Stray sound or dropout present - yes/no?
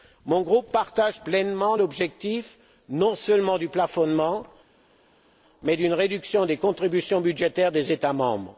no